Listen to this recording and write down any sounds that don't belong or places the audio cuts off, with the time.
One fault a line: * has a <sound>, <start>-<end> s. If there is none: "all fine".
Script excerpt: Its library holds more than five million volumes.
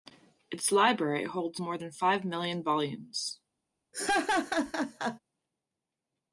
* has a laugh, 3.9-5.2 s